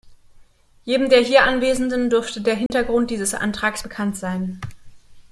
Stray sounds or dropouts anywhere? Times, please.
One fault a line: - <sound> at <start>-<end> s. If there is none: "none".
- dropout at 2.7-2.7 s